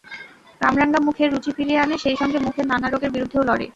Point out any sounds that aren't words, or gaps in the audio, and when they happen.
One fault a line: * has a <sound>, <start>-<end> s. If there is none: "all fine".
all fine